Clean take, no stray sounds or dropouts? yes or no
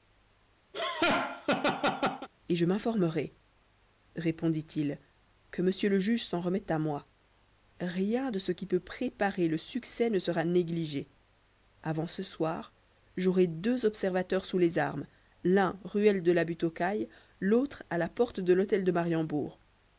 no